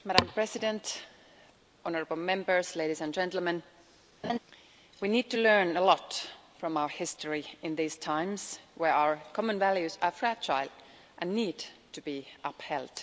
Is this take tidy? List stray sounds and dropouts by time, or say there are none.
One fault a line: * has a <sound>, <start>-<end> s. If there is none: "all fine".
* has a laugh, 4.2-4.4 s